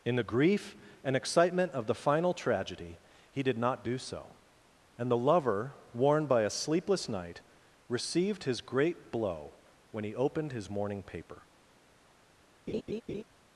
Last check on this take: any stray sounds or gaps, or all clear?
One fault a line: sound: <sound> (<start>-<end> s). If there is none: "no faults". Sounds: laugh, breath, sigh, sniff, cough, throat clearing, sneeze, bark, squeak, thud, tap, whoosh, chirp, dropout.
sound: laugh (12.7-13.2 s)